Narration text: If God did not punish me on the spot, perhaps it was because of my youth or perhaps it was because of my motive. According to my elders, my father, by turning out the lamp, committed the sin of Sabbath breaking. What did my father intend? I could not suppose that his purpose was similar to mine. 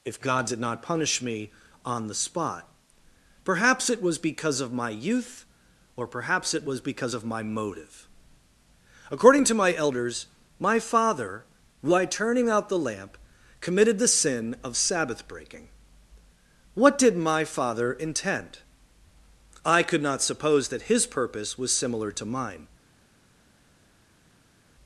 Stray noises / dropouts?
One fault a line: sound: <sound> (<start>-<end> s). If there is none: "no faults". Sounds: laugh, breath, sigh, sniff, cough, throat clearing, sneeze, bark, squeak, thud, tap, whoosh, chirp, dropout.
no faults